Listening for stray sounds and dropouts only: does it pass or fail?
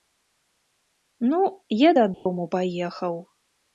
fail